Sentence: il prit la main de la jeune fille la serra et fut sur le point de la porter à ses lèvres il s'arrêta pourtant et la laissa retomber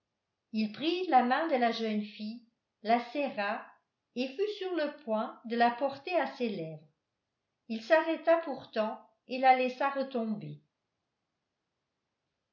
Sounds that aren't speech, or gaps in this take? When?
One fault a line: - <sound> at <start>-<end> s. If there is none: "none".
none